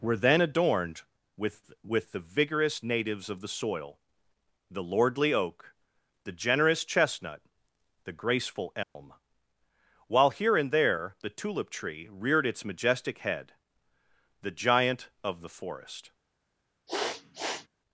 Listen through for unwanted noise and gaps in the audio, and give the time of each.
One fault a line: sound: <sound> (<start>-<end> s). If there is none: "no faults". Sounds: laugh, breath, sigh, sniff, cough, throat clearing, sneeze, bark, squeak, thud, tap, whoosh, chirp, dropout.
sound: dropout (8.8-9.0 s)
sound: sniff (16.9-17.7 s)